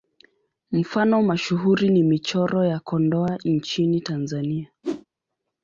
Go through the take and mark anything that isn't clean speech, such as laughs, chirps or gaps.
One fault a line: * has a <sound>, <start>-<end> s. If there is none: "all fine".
* has a whoosh, 4.8-5.1 s